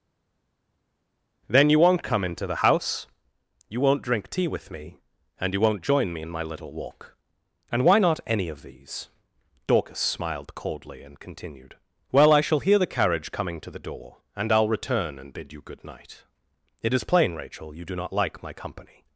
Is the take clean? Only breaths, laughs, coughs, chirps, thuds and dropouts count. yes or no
yes